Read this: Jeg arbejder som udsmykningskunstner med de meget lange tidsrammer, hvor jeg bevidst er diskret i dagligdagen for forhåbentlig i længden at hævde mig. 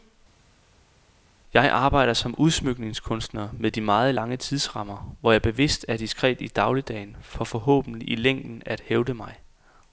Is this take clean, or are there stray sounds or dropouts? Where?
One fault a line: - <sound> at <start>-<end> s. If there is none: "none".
none